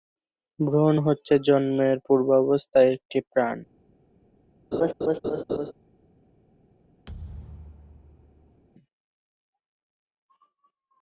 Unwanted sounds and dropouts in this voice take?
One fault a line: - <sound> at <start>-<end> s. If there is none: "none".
- laugh at 4.7-5.7 s
- thud at 7.1-8.6 s